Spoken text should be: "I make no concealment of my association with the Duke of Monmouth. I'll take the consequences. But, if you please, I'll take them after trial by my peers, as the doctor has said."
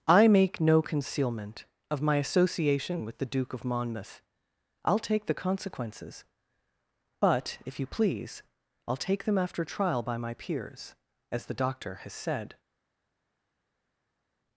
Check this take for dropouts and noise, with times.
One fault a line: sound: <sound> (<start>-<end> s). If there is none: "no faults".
no faults